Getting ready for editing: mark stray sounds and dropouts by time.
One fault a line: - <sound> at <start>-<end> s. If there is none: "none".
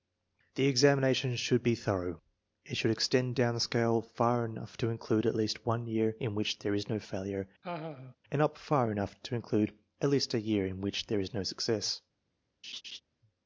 - laugh at 7.6-8.2 s
- laugh at 12.6-13.0 s